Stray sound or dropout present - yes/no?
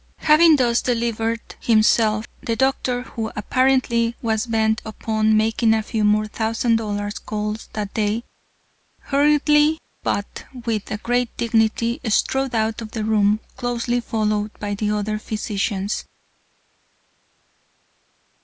no